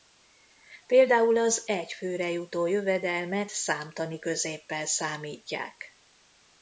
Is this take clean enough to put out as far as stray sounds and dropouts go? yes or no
yes